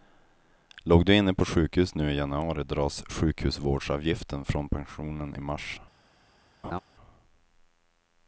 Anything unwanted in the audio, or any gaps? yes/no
yes